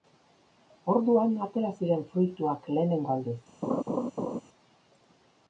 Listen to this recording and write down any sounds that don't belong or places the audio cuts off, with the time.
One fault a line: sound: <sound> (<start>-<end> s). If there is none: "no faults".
sound: laugh (3.6-4.4 s)